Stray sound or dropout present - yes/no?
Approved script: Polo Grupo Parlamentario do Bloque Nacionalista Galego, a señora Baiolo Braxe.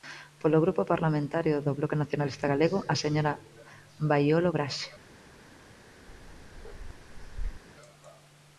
yes